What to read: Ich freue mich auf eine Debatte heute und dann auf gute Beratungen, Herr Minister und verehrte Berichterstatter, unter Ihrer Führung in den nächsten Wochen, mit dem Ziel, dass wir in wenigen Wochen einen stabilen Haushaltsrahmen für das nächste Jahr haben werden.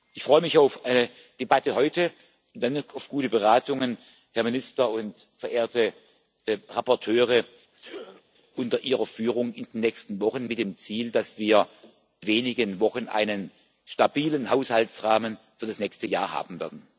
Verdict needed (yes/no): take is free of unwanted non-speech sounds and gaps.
no